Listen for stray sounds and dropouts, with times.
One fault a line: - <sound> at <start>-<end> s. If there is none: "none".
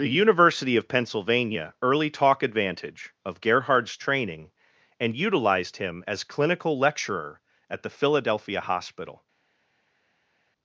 none